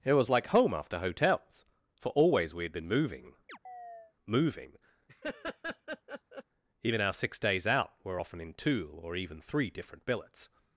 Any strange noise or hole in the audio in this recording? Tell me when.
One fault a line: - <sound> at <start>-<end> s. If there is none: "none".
- chirp at 3.5-4.1 s
- laugh at 5.1-6.4 s